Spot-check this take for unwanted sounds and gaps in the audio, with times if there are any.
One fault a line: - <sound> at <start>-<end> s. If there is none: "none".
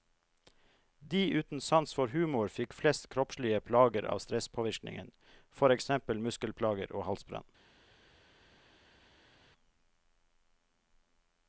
none